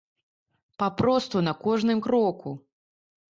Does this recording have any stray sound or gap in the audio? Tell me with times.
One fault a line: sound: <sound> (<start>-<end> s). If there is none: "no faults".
no faults